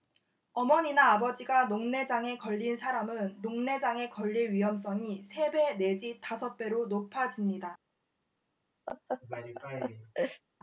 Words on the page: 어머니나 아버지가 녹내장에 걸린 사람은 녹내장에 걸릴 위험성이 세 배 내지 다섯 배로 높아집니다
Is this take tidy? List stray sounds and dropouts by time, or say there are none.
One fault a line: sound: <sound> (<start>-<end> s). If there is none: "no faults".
sound: laugh (8.9-10.4 s)